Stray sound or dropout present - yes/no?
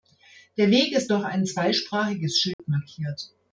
yes